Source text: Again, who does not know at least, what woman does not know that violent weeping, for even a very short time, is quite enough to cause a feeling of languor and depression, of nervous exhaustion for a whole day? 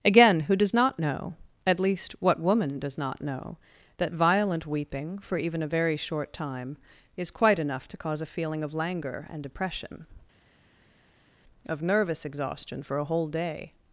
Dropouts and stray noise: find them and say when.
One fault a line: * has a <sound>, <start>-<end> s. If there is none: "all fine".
all fine